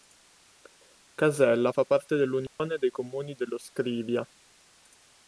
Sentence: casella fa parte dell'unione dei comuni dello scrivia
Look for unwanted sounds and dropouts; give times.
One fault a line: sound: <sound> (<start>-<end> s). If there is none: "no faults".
sound: dropout (2.5-2.6 s)